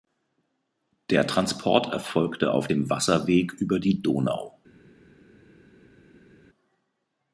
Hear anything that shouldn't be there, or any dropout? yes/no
no